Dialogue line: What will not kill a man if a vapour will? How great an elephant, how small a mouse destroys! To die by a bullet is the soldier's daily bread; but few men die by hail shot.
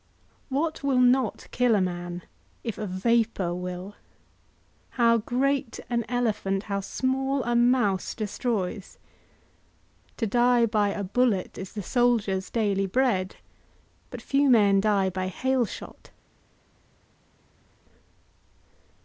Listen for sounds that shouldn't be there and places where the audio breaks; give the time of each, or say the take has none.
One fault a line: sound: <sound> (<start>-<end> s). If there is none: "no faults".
no faults